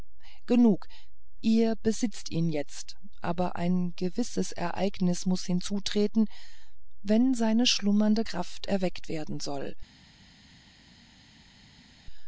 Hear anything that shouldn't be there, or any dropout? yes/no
no